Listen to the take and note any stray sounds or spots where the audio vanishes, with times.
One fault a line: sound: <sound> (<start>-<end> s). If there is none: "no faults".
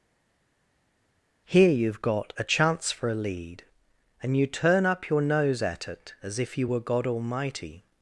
no faults